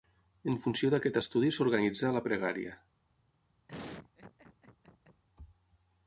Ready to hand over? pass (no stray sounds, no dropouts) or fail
fail